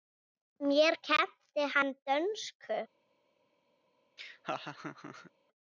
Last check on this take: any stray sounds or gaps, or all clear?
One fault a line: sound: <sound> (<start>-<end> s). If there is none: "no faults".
sound: laugh (4.2-5.3 s)